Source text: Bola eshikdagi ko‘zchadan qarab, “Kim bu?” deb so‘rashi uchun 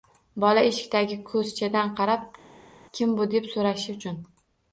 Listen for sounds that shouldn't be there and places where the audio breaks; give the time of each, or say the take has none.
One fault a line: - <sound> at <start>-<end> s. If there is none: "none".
none